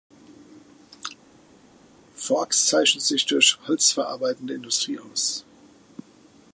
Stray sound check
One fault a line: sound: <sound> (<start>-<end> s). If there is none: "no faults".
no faults